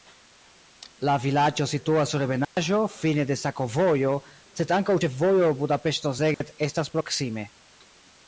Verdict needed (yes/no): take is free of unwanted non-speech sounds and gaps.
no